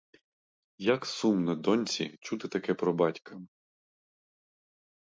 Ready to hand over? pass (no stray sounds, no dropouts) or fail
pass